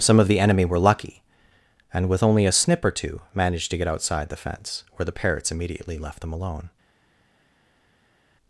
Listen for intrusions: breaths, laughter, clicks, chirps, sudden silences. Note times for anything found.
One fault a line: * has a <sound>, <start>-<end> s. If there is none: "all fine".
all fine